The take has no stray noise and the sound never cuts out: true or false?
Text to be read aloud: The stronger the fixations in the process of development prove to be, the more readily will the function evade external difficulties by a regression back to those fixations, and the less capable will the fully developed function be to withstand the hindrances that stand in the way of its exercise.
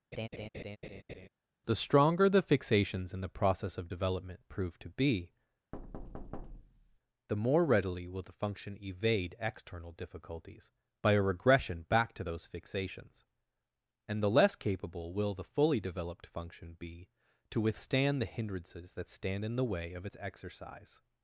false